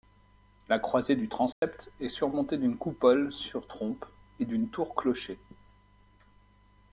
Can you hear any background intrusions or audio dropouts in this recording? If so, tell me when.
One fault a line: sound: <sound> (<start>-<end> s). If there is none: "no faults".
sound: dropout (1.5-1.6 s)